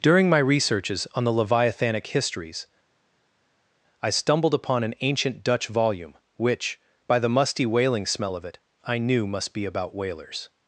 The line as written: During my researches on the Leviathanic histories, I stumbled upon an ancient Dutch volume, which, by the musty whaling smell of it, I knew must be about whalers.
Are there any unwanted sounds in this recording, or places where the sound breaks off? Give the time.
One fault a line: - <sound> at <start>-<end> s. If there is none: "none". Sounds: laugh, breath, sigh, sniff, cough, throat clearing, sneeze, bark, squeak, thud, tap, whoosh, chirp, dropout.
none